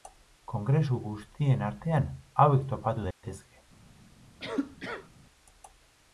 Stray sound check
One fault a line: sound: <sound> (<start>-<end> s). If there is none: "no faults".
sound: dropout (3.1-3.2 s)
sound: cough (4.4-5.1 s)